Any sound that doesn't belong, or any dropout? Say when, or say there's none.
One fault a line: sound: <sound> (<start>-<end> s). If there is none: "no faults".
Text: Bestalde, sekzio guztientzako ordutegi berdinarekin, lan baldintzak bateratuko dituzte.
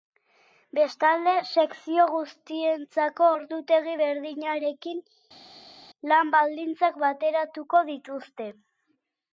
no faults